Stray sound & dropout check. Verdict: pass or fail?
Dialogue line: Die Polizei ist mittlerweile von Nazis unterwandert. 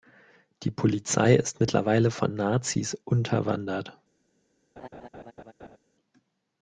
fail